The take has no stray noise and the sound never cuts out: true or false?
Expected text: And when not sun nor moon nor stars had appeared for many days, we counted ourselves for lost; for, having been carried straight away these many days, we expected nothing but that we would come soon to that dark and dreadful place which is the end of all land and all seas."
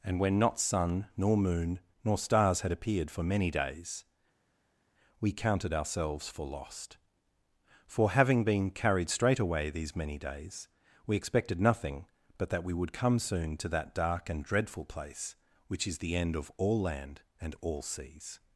true